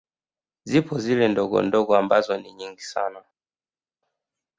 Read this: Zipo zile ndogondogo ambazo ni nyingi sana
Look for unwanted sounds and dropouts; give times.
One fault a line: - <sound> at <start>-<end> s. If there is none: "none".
none